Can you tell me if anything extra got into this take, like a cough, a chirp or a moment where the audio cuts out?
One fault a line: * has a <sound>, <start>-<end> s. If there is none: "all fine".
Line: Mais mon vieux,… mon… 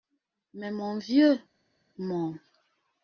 all fine